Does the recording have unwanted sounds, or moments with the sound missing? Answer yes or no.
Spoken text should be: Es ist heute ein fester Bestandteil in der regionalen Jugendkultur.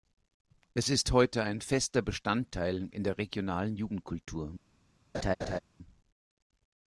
yes